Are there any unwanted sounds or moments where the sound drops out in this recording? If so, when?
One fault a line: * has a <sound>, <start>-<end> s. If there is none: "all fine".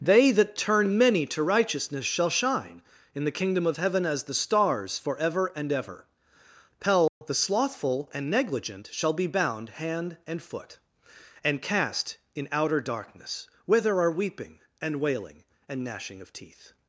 * has a dropout, 7.1-7.2 s